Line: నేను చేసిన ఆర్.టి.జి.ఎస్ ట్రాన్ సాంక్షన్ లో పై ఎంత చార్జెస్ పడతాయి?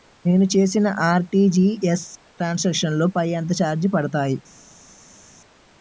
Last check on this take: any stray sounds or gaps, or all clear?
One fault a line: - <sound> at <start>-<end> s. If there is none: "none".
none